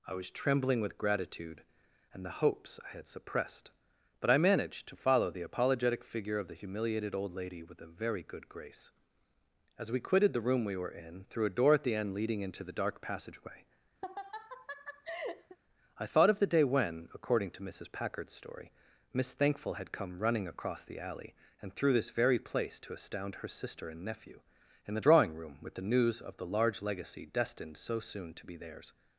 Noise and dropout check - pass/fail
fail